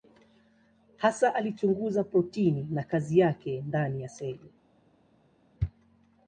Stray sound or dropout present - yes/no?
no